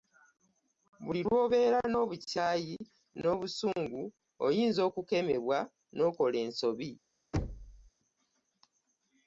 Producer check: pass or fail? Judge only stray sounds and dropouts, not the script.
fail